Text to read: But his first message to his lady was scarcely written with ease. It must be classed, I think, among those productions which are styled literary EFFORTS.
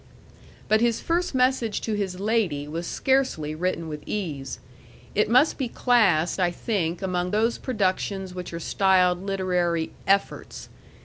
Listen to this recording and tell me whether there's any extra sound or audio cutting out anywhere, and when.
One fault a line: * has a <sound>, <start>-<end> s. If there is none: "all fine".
all fine